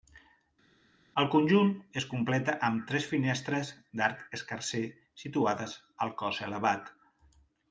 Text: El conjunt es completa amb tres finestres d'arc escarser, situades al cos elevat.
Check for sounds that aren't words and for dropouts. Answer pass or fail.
pass